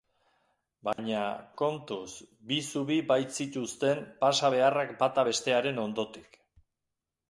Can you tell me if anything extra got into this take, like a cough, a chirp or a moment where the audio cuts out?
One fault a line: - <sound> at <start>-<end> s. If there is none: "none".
- dropout at 0.9-1.0 s